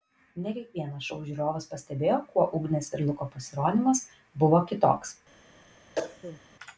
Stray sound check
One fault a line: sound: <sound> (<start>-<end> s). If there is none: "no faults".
sound: cough (6.0-6.4 s)